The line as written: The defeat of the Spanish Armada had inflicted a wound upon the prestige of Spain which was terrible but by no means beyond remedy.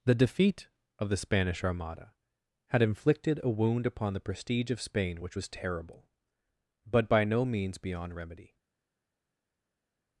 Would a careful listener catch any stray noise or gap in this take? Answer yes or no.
no